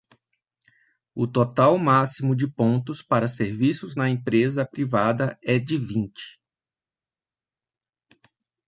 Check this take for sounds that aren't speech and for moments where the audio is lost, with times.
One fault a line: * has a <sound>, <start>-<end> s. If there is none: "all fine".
all fine